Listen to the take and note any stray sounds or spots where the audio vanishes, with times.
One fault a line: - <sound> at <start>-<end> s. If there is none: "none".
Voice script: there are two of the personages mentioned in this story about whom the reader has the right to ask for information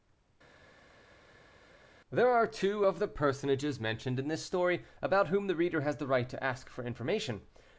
none